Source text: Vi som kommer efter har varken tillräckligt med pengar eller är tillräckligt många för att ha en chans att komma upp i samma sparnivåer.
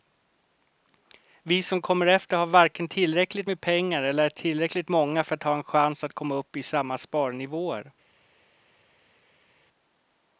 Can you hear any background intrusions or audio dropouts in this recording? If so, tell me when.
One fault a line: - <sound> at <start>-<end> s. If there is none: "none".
none